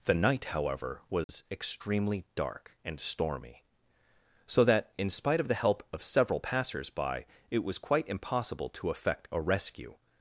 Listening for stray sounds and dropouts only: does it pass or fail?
fail